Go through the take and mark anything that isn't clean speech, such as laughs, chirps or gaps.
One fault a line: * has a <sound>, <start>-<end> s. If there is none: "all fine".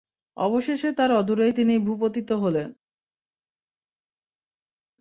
all fine